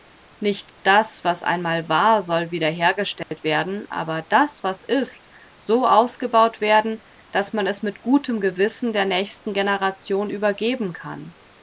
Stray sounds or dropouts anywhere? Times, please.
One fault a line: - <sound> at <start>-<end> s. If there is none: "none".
- dropout at 3.2-3.3 s